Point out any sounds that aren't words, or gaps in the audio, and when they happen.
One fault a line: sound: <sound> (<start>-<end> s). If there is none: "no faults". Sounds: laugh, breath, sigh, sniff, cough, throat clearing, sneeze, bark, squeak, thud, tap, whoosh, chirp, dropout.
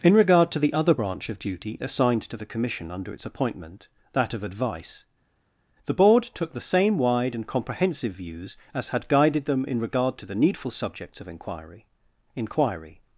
no faults